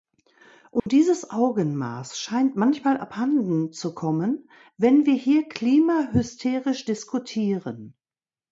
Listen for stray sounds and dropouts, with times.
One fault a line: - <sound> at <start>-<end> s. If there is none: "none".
- dropout at 0.8-0.9 s